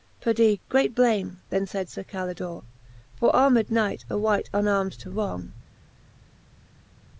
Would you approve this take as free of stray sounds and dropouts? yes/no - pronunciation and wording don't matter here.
yes